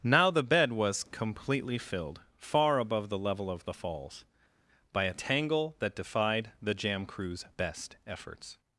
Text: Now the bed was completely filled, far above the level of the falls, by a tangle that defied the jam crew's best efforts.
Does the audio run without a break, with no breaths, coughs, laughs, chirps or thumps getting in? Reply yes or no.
yes